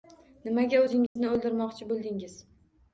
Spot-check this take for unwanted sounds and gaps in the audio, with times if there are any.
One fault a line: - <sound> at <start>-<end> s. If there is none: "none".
- dropout at 1.1-1.2 s